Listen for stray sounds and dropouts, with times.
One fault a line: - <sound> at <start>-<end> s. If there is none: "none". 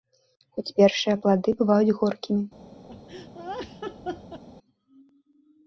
- laugh at 2.9-4.4 s